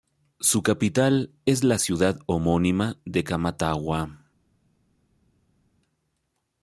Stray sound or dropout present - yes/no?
no